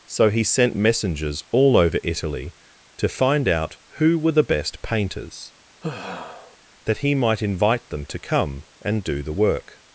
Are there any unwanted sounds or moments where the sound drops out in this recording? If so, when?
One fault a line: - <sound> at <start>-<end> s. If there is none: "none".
- sigh at 5.8-6.6 s